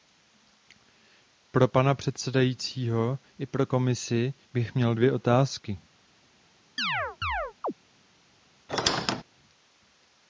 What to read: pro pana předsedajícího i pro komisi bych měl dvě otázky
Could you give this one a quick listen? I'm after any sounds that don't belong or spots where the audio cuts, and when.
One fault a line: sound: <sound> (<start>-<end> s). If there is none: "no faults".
sound: chirp (6.8-7.7 s)
sound: squeak (8.7-9.2 s)